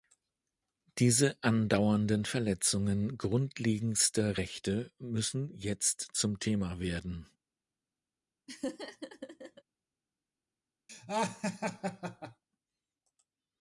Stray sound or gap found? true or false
true